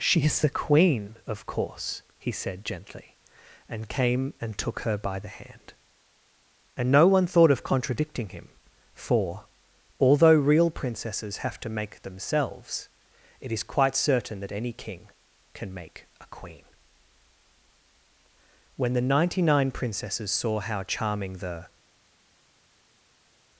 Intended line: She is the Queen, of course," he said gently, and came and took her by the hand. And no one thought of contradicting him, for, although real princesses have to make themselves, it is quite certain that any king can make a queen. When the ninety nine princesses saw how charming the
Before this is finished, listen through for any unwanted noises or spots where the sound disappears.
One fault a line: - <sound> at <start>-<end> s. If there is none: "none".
none